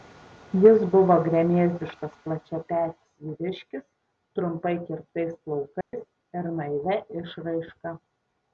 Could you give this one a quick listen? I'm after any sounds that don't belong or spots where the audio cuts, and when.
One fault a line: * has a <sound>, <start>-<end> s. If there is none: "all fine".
* has a dropout, 5.8-5.9 s